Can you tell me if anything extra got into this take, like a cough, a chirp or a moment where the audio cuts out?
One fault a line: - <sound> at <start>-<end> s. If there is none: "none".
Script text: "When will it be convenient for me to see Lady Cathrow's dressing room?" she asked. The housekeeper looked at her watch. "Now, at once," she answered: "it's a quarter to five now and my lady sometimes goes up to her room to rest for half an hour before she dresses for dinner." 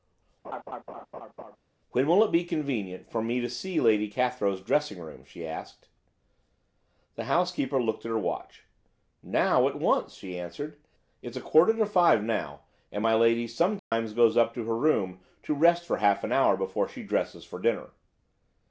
- laugh at 0.4-1.6 s
- dropout at 13.8-13.9 s